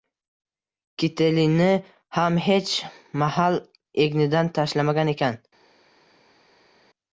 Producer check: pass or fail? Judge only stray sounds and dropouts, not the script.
pass